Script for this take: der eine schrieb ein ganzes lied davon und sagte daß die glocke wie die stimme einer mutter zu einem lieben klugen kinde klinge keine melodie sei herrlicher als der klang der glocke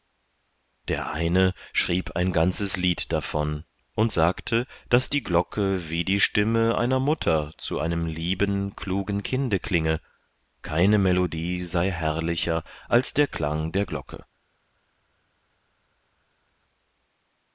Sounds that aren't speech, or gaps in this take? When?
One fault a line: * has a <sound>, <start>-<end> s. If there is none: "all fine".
all fine